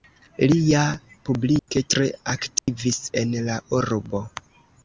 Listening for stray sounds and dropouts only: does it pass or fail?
fail